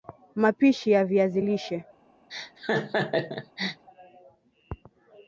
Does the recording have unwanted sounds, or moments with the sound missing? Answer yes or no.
yes